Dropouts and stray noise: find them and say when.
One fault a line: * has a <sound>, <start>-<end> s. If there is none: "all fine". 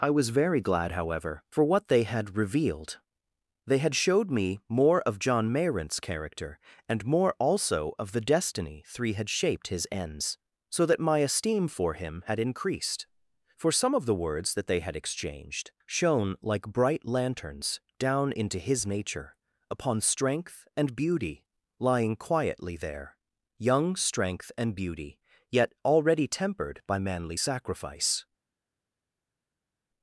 all fine